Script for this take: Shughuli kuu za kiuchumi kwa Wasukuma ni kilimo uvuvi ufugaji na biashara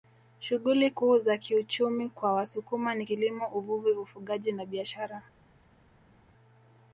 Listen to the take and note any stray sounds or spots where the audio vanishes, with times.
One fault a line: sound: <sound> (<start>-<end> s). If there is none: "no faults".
no faults